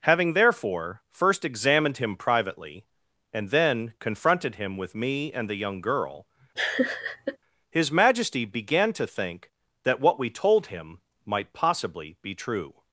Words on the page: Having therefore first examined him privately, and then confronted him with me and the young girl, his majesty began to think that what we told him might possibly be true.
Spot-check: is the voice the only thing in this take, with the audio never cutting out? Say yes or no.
no